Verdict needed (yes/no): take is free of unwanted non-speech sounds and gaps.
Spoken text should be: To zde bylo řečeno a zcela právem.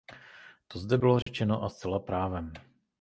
no